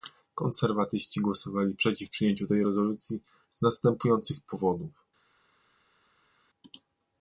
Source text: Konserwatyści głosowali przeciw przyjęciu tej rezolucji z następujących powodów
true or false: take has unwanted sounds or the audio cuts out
false